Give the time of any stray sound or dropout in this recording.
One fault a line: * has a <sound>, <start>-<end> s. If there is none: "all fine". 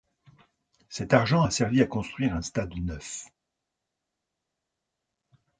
all fine